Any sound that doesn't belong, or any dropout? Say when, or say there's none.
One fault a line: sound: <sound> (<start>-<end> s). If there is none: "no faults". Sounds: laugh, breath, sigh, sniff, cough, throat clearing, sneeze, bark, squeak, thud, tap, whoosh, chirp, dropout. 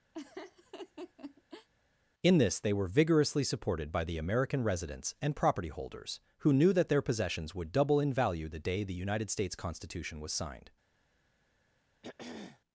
sound: laugh (0.1-1.7 s)
sound: throat clearing (12.0-12.6 s)